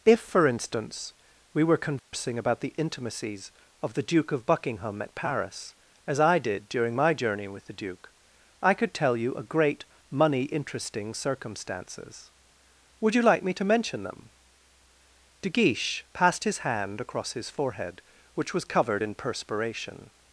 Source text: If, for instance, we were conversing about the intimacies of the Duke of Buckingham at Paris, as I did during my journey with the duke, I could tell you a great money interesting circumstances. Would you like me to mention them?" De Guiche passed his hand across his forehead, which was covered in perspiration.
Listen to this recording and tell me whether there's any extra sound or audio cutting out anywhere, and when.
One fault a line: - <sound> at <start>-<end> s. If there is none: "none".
- dropout at 2.0-2.1 s